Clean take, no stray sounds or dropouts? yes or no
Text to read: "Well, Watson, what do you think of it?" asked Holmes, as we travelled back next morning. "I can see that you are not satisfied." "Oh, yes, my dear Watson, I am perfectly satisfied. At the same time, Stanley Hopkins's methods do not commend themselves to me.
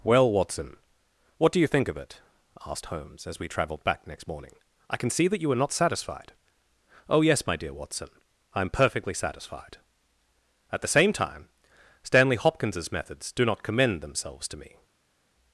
yes